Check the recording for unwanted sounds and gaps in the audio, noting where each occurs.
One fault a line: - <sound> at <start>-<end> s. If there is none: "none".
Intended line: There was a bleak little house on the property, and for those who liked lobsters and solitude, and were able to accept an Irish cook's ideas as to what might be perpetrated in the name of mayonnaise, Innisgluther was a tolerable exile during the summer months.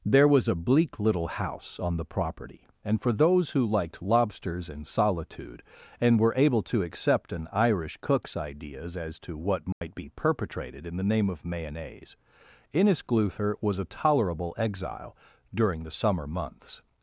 - dropout at 9.7-9.8 s